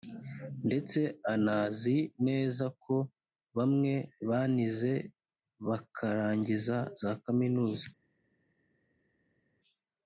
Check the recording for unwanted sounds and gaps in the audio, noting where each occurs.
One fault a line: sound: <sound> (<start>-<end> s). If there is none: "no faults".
no faults